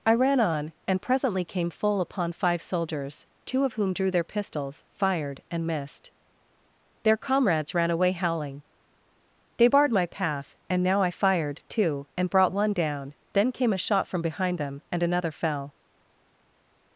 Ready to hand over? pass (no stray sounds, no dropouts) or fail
pass